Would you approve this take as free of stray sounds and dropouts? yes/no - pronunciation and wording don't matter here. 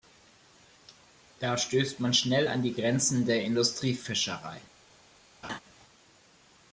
no